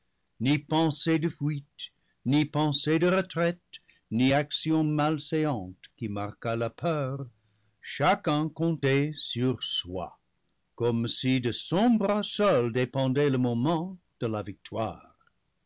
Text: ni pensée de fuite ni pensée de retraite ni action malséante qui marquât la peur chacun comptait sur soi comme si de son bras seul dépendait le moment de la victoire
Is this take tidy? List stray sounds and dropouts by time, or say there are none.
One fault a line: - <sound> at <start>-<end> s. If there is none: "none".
none